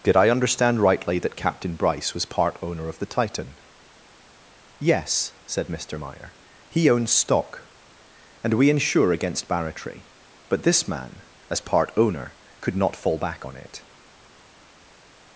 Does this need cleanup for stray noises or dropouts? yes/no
no